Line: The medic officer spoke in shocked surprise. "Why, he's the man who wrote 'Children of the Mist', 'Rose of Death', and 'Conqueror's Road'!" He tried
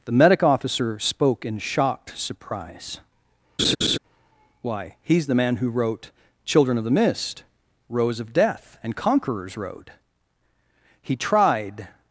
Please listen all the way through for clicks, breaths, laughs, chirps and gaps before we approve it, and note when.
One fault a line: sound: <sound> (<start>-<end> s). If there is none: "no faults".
sound: laugh (3.6-4.0 s)